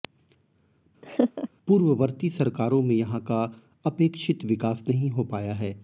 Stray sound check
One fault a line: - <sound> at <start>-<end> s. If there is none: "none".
- laugh at 1.0-1.5 s